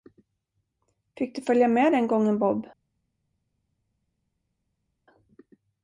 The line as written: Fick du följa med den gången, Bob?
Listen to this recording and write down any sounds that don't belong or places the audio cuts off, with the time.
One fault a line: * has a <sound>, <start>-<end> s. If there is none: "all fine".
all fine